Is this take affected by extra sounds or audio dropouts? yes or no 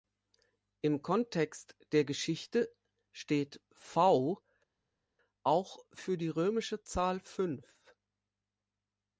no